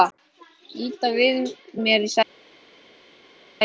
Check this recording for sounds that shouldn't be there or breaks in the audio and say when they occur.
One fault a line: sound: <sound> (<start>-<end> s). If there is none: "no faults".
no faults